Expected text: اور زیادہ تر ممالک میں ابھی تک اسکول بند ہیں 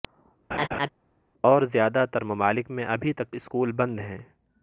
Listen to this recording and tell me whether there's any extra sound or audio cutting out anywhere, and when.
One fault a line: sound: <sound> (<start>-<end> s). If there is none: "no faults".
sound: laugh (0.5-0.9 s)